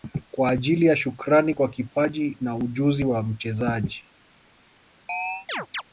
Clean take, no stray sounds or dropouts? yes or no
no